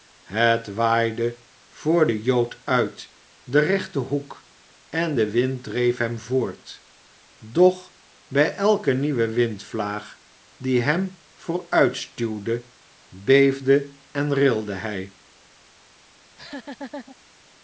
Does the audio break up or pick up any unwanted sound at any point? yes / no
yes